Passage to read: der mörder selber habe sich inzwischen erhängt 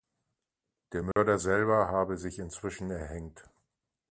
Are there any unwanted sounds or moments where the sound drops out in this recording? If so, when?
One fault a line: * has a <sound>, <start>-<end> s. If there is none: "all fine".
* has a dropout, 1.1-1.2 s